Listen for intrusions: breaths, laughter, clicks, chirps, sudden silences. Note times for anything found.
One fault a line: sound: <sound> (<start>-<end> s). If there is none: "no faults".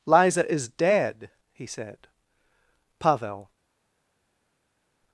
no faults